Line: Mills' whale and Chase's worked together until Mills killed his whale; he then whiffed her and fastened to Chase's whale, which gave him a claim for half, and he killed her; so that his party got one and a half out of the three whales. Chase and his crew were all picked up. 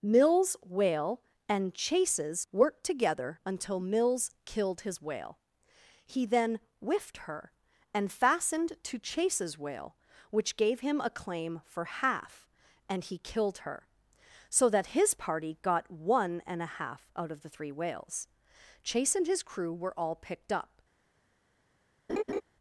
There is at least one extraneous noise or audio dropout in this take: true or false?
true